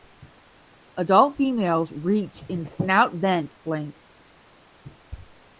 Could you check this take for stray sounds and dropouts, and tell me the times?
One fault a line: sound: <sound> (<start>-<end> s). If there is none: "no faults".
no faults